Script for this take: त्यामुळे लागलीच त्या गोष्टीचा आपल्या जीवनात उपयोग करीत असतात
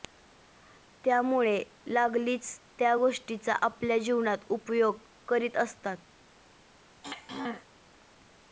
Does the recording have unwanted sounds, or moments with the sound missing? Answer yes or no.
yes